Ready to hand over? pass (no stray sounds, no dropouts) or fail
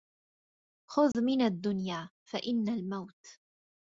fail